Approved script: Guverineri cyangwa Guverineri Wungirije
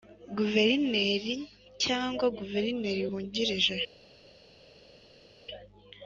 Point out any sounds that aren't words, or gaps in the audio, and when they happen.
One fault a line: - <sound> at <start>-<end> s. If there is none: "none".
none